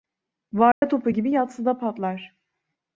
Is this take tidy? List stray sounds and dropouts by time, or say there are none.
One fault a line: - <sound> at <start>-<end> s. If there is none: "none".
- dropout at 0.7-0.8 s